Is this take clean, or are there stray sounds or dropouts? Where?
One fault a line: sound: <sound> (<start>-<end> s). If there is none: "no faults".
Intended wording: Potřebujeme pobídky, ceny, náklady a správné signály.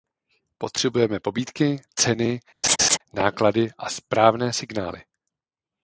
sound: laugh (2.6-3.0 s)